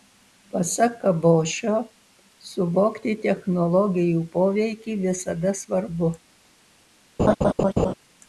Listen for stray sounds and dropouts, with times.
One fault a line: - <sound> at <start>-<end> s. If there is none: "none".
- laugh at 7.2-7.9 s